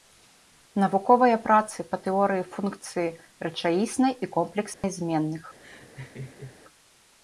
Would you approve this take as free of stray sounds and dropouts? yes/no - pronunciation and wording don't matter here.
no